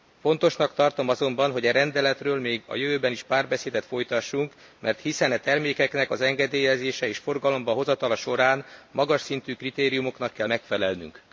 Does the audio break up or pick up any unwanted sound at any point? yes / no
no